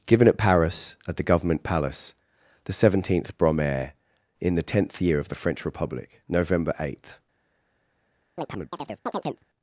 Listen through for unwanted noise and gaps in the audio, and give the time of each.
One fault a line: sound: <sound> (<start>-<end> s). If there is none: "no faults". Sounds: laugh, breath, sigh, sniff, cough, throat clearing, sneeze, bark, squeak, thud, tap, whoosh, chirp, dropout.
sound: chirp (8.4-9.4 s)